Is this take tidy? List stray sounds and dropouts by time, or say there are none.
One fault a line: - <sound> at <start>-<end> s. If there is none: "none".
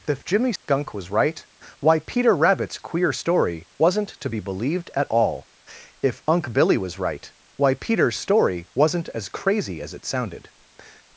- dropout at 0.6-0.7 s